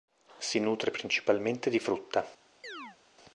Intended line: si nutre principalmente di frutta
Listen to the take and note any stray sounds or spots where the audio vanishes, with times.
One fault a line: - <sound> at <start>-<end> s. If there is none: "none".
- chirp at 2.6-3.0 s